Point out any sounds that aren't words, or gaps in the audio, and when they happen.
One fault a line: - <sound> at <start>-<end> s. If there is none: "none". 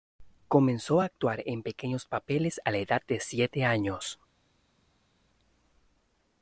none